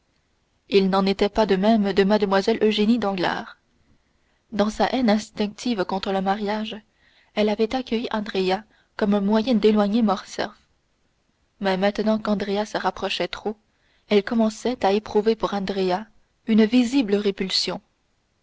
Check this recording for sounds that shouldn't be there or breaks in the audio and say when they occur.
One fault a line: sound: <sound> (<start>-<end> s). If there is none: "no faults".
no faults